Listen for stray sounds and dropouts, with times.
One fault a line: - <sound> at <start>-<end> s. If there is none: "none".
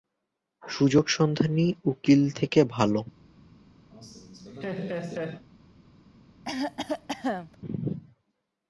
- laugh at 3.9-5.5 s
- cough at 6.4-7.6 s